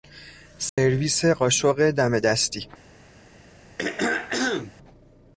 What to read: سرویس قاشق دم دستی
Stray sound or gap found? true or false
true